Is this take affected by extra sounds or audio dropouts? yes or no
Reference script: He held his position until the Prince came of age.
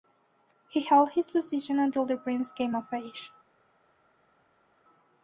no